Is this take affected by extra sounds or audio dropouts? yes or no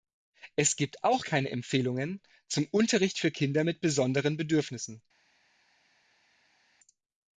no